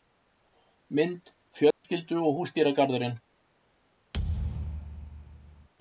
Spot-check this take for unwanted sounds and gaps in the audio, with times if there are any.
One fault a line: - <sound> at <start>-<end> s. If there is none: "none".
- dropout at 1.7-1.8 s
- thud at 4.1-5.7 s